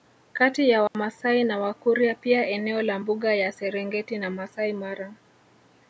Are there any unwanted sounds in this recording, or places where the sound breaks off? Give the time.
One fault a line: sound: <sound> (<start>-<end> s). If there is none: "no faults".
sound: dropout (0.9-0.9 s)